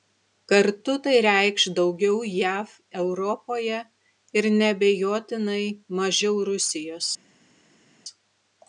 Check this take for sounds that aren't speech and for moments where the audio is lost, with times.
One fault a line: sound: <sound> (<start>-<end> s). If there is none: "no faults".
no faults